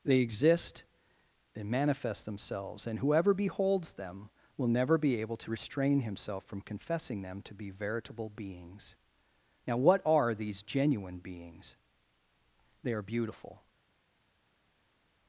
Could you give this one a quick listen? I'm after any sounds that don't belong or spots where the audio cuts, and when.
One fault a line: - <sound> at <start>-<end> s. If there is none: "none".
none